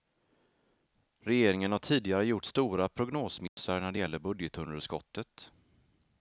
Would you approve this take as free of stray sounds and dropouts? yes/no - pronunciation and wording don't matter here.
no